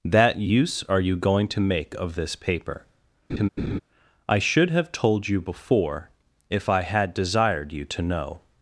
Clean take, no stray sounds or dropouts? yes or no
no